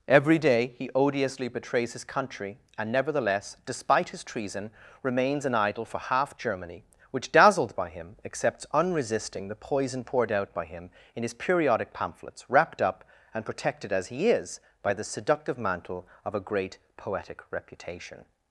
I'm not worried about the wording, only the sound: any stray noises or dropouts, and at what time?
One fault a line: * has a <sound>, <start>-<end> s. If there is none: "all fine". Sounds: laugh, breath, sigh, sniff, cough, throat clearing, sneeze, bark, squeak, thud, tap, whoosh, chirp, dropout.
all fine